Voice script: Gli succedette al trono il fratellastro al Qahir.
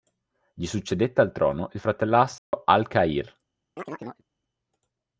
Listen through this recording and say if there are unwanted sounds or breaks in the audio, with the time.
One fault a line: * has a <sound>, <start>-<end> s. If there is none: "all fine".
* has a dropout, 2.4-2.5 s
* has a chirp, 3.8-4.2 s